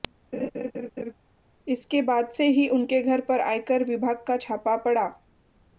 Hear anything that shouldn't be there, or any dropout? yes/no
yes